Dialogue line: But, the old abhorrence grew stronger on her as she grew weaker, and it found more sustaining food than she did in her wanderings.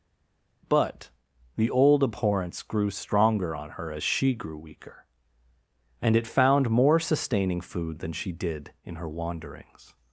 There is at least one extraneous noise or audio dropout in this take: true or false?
false